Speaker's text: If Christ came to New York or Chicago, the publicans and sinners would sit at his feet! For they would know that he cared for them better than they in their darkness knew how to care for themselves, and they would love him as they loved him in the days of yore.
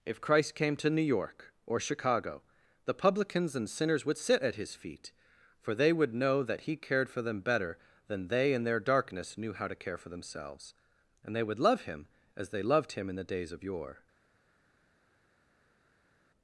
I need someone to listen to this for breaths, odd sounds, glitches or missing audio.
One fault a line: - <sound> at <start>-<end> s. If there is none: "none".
none